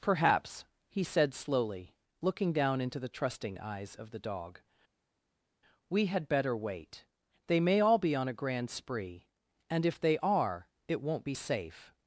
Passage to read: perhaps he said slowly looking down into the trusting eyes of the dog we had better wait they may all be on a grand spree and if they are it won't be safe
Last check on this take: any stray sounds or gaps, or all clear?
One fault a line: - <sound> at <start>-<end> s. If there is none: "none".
none